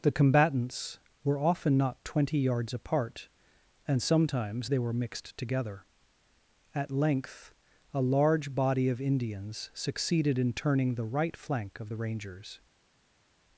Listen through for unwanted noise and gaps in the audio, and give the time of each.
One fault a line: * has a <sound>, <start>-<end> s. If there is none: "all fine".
all fine